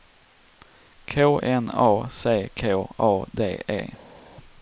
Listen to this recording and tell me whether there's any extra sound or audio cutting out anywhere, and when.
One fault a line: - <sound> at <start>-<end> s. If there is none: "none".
none